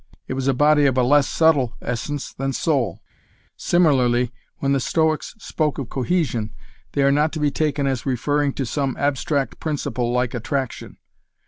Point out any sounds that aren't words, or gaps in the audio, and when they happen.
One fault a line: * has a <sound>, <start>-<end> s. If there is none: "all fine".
all fine